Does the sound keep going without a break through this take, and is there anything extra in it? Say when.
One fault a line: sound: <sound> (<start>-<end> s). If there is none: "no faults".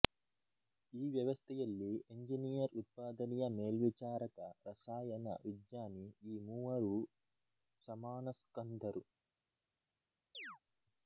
sound: chirp (10.3-10.6 s)